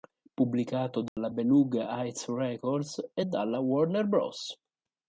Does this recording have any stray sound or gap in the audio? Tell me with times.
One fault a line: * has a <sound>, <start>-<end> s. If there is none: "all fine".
* has a dropout, 1.1-1.2 s